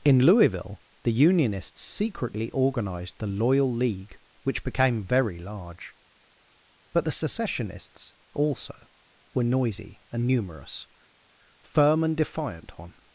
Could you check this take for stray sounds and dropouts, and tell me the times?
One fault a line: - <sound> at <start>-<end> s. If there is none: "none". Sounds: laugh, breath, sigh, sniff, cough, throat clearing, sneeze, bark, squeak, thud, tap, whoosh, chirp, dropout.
none